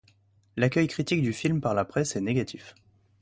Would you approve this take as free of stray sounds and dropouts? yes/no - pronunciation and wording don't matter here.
yes